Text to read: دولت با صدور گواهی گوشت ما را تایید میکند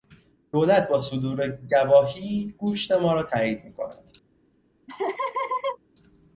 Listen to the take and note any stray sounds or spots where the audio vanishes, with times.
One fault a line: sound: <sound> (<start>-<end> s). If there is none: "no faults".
sound: laugh (4.9-5.8 s)